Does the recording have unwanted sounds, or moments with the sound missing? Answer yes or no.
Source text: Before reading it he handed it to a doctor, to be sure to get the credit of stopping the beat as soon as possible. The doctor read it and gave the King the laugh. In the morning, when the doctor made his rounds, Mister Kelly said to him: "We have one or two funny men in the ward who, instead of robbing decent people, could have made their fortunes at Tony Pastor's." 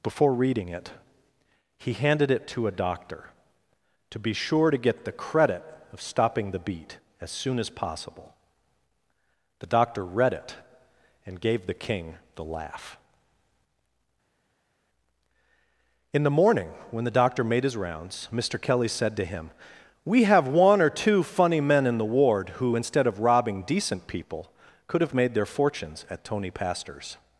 no